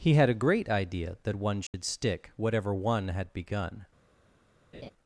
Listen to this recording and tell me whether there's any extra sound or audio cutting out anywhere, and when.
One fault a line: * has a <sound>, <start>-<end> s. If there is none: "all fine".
* has a dropout, 1.7-1.7 s
* has a laugh, 4.7-4.9 s